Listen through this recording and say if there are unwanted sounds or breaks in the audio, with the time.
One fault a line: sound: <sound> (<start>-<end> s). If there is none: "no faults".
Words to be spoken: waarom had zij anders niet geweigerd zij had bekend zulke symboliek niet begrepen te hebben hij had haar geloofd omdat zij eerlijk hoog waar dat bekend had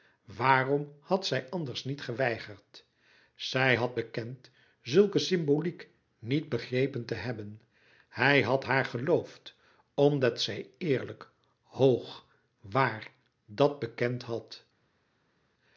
no faults